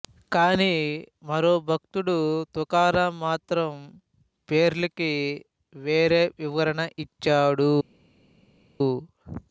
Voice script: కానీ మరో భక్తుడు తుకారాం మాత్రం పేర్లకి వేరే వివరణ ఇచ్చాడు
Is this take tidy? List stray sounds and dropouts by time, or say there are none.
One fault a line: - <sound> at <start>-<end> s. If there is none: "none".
none